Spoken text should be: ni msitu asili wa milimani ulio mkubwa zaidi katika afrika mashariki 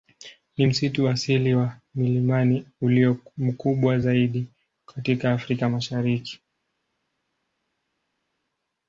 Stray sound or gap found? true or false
false